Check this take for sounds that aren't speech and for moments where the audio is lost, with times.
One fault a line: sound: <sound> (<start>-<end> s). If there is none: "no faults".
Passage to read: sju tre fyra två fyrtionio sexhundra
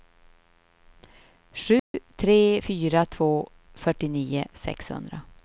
sound: dropout (1.8-1.9 s)